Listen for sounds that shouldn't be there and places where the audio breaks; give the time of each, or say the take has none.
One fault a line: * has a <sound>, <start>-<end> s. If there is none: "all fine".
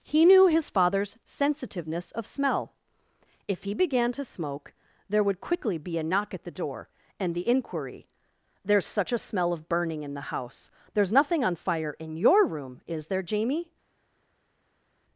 all fine